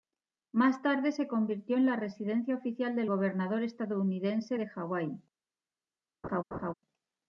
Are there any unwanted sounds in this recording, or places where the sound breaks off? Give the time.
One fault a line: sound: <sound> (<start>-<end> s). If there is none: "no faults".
sound: laugh (6.2-6.7 s)